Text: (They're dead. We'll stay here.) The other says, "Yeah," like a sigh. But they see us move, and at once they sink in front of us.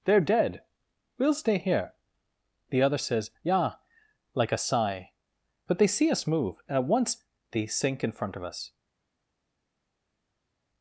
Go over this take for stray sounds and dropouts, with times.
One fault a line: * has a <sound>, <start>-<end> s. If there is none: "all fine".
all fine